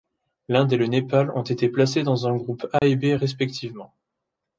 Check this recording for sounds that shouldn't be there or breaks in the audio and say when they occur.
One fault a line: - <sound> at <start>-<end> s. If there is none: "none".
- dropout at 2.8-2.8 s